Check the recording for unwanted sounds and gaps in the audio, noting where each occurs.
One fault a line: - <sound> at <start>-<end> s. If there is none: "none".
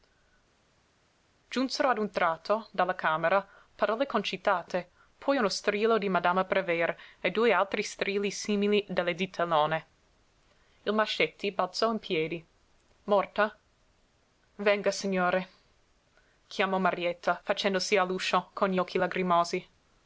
none